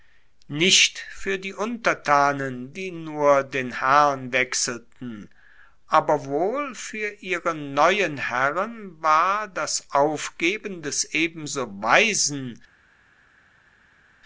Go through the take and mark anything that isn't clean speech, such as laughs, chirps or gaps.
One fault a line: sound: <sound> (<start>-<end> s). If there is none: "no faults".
no faults